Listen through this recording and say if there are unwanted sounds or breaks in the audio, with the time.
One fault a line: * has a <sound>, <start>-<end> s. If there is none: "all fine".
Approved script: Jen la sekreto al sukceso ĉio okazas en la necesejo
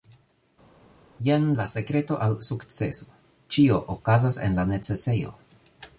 all fine